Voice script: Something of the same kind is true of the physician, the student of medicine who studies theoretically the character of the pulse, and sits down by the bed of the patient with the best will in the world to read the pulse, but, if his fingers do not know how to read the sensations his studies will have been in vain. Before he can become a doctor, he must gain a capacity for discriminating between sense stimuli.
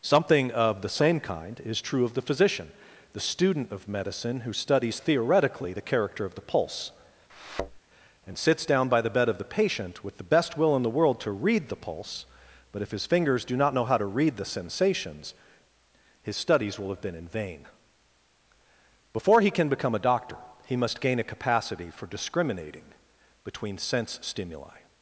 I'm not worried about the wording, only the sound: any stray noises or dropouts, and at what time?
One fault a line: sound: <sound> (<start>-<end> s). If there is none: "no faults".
sound: thud (7.3-7.8 s)